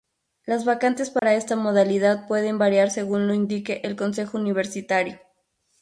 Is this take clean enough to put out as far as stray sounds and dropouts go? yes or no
no